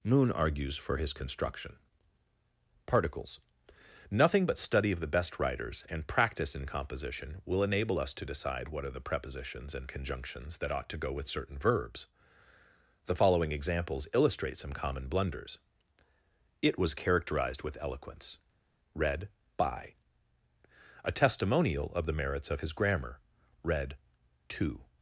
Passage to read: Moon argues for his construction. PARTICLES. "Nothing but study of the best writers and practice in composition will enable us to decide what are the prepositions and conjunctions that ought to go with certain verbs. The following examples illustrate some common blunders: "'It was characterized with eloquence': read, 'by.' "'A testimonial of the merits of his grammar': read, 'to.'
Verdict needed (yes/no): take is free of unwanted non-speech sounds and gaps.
yes